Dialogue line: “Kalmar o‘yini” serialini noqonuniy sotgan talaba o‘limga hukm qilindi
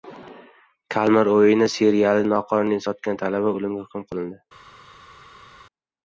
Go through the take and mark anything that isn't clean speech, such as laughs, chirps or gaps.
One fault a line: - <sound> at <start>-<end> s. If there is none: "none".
none